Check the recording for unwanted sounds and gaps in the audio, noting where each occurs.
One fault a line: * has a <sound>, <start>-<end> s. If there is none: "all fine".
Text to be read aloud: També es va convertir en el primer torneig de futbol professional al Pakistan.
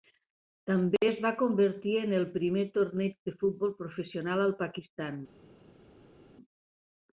all fine